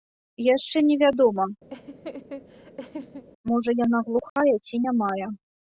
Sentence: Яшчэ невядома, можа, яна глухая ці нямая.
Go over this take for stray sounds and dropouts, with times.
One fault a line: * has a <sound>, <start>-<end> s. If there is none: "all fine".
* has a laugh, 1.7-3.2 s
* has a dropout, 4.3-4.4 s